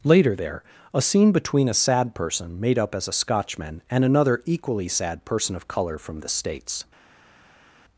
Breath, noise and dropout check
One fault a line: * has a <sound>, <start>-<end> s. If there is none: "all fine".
all fine